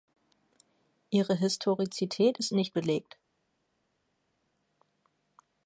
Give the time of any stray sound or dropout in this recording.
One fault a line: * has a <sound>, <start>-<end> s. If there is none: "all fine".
all fine